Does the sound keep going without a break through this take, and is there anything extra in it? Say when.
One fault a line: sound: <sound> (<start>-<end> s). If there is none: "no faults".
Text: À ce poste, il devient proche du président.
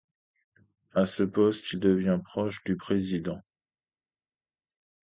no faults